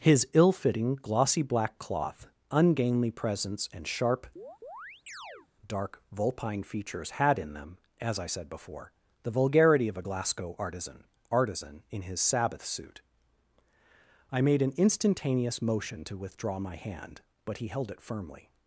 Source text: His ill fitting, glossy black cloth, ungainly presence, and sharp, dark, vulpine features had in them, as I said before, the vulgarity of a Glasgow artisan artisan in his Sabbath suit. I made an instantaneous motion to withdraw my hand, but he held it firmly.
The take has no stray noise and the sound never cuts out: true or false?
false